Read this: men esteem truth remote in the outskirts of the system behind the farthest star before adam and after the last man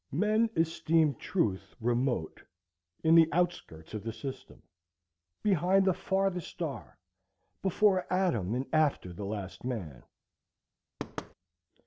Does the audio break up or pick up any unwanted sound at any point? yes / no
yes